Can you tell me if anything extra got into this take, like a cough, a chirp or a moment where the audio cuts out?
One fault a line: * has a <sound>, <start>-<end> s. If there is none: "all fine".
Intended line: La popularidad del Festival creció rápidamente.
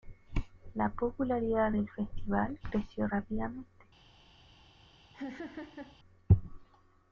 * has a laugh, 5.1-6.0 s